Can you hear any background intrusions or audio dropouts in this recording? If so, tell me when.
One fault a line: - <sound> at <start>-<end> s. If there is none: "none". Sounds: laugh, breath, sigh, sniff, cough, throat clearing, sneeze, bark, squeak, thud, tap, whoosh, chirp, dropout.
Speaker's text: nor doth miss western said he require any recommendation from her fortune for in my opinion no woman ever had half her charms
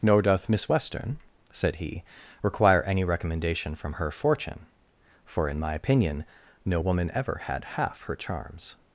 none